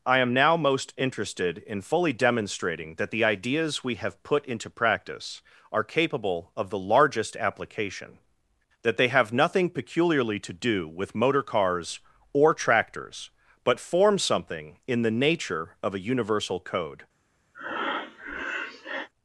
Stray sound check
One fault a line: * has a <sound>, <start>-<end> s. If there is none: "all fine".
* has a breath, 17.5-19.1 s